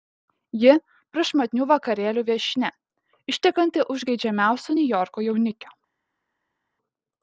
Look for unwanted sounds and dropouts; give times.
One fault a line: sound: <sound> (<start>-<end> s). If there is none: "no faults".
no faults